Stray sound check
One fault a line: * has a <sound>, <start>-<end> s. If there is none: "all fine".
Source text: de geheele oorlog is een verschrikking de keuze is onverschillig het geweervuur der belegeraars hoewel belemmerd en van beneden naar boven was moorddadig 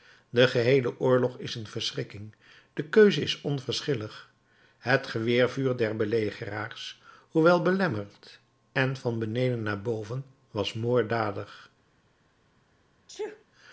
* has a sneeze, 13.1-13.4 s